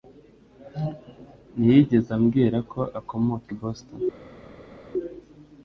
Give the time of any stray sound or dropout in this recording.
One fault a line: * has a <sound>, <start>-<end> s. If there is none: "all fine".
all fine